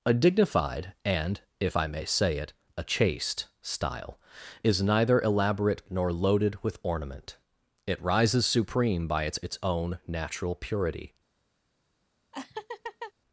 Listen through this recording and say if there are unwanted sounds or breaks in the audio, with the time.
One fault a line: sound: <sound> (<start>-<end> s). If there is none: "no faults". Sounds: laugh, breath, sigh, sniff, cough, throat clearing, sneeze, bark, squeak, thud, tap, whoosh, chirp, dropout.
sound: laugh (12.3-13.1 s)